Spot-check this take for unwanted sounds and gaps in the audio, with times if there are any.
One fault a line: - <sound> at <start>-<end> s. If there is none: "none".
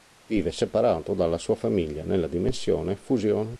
none